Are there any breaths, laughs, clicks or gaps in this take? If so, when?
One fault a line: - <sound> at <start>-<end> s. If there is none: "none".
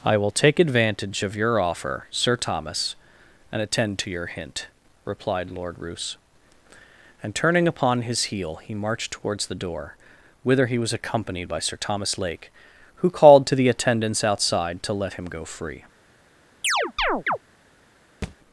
- chirp at 16.6-17.4 s
- thud at 18.2-18.4 s